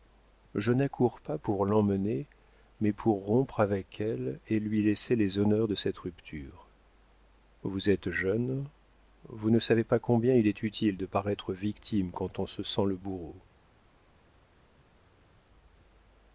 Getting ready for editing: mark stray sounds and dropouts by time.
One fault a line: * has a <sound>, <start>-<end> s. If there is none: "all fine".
all fine